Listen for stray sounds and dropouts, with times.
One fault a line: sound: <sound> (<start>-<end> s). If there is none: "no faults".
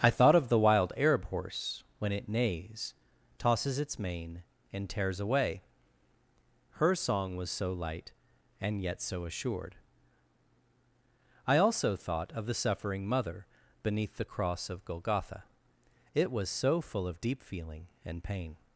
no faults